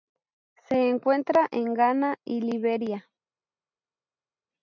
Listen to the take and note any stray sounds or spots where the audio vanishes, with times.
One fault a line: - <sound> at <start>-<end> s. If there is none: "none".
none